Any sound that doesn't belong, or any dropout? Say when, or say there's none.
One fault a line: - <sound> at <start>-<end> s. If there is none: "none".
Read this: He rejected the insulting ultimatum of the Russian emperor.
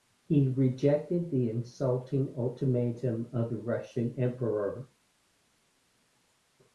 none